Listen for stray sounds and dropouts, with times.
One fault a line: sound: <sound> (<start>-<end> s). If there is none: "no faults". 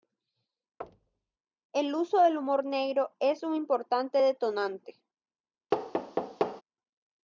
sound: thud (0.8-1.4 s)
sound: thud (5.7-6.6 s)